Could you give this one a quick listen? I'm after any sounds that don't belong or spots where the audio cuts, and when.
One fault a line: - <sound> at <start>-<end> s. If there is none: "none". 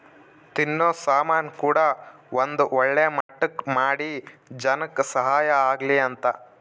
- dropout at 3.2-3.3 s